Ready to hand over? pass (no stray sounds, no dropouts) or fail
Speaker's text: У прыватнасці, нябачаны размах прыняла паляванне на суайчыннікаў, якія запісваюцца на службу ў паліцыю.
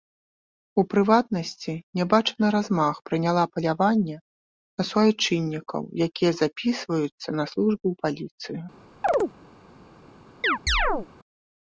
fail